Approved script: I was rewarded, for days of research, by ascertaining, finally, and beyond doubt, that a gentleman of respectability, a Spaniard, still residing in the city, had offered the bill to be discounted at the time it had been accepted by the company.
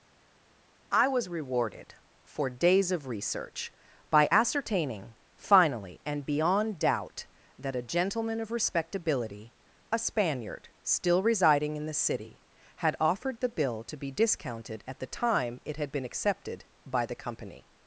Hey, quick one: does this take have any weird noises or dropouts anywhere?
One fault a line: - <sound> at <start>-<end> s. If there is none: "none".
none